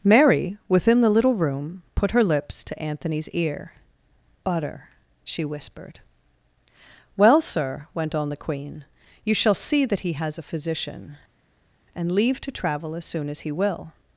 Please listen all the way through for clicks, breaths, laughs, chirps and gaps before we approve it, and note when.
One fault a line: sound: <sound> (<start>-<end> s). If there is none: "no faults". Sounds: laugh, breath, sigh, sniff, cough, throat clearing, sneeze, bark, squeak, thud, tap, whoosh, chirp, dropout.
no faults